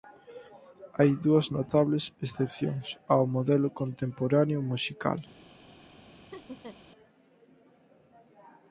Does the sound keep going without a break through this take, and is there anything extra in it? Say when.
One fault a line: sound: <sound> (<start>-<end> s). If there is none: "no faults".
sound: laugh (6.3-6.8 s)